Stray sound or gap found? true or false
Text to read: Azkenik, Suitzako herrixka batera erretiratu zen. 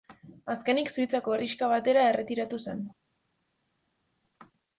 false